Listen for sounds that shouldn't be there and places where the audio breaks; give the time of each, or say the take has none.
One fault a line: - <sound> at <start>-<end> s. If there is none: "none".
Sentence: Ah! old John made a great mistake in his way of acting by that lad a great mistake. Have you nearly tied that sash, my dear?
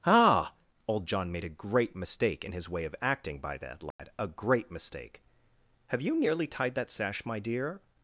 - dropout at 3.9-4.0 s